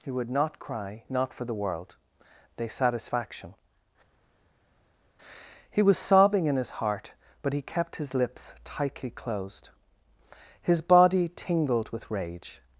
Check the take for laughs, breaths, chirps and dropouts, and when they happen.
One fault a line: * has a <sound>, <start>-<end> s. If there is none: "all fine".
all fine